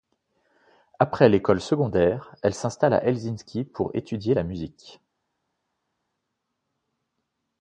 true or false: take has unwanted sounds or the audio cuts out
false